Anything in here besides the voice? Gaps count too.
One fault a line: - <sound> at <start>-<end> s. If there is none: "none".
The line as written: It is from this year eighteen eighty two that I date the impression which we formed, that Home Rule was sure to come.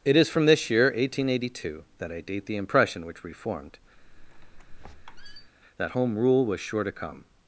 - squeak at 4.0-5.5 s